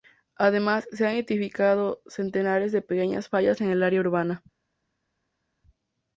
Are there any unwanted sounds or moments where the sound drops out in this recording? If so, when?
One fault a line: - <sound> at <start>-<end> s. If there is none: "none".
none